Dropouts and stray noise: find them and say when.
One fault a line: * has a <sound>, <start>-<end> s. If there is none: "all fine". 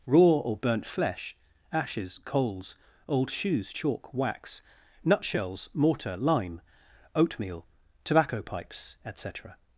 all fine